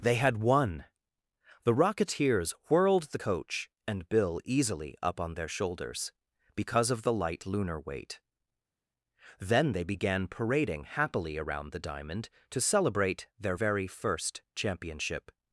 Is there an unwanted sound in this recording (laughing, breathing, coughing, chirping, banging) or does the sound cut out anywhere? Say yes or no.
no